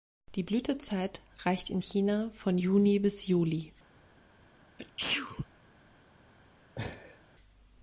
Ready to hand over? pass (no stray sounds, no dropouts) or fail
fail